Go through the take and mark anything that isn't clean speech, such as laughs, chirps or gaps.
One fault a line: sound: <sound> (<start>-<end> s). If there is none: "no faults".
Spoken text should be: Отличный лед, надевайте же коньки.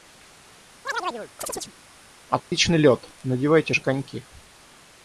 sound: chirp (0.8-1.7 s)
sound: dropout (2.4-2.5 s)